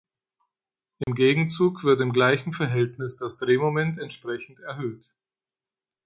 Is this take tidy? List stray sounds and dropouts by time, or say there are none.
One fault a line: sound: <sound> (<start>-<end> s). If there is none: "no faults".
sound: dropout (1.0-1.1 s)